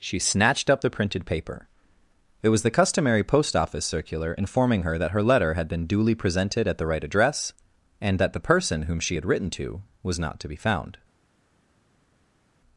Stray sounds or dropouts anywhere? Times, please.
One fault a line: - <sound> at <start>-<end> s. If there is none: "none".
none